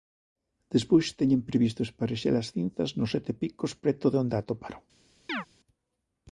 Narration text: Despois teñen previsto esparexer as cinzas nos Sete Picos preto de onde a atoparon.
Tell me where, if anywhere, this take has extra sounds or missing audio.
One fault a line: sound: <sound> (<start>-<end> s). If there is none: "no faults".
sound: chirp (5.3-5.5 s)